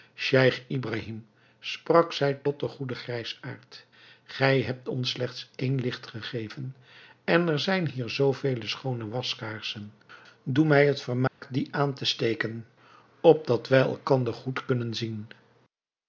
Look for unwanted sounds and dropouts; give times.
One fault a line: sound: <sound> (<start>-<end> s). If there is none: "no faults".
sound: dropout (11.3-11.4 s)